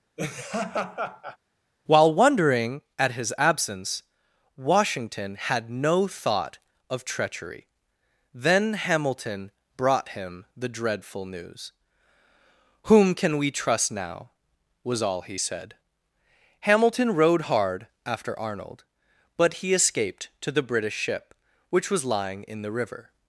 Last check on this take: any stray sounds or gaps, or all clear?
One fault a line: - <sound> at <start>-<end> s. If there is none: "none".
- laugh at 0.2-1.4 s